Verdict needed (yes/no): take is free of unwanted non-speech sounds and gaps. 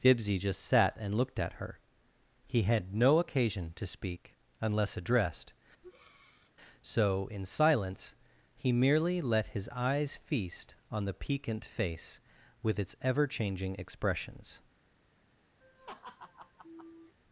no